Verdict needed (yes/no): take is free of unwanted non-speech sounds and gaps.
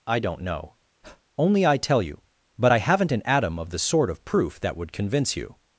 no